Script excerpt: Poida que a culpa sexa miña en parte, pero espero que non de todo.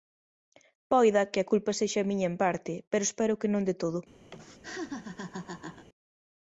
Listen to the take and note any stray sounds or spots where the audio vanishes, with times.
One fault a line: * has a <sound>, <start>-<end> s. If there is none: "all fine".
* has a laugh, 4.3-5.9 s